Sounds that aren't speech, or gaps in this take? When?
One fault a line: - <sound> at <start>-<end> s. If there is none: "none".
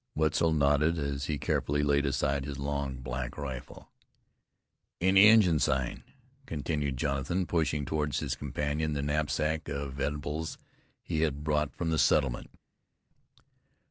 none